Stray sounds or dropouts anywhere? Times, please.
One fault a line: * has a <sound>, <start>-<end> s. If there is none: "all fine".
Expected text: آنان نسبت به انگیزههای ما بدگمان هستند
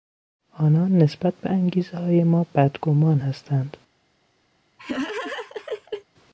* has a laugh, 4.8-6.1 s